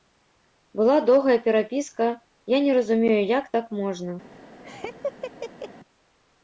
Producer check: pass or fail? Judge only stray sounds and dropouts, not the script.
fail